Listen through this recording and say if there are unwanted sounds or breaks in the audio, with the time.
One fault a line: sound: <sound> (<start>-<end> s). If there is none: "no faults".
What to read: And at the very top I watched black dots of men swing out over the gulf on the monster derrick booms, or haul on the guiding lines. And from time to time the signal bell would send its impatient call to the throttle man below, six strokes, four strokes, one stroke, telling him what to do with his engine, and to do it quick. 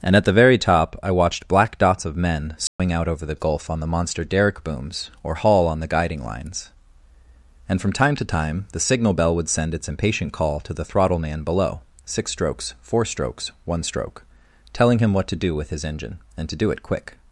sound: dropout (2.7-2.8 s)